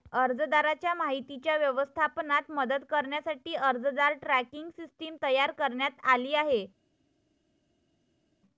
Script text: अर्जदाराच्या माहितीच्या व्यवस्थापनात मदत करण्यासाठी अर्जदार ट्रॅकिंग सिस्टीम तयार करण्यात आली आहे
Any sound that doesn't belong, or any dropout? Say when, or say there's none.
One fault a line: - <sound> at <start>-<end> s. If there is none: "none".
none